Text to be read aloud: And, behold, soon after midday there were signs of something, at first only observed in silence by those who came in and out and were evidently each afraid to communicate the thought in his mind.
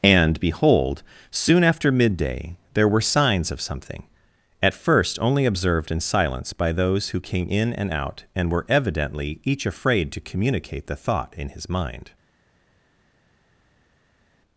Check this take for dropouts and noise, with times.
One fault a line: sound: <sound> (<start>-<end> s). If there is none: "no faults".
no faults